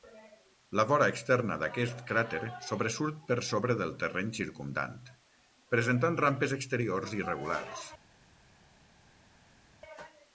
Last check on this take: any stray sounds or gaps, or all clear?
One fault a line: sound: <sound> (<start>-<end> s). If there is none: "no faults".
no faults